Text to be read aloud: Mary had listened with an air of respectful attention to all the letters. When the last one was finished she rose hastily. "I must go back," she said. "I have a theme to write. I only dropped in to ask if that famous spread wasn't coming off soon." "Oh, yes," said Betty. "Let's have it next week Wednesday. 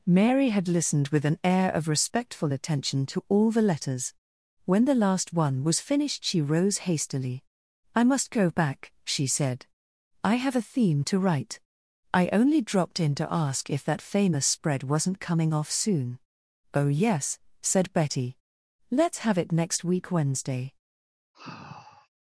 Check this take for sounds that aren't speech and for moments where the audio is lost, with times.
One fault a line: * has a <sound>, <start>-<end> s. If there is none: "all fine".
* has a sigh, 21.3-22.1 s